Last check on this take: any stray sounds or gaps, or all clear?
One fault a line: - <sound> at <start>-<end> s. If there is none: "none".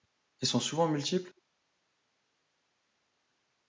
none